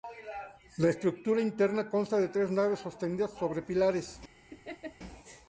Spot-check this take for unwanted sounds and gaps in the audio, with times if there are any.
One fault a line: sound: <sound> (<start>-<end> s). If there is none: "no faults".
sound: laugh (4.5-5.0 s)